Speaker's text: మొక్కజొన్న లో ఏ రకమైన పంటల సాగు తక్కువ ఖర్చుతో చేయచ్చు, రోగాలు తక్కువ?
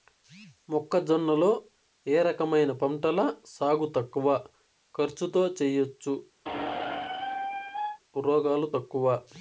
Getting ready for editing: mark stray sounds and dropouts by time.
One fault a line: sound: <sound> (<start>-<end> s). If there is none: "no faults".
sound: squeak (6.4-8.0 s)